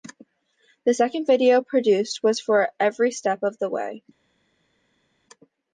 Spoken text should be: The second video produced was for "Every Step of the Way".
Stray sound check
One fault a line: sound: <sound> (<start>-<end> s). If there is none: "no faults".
no faults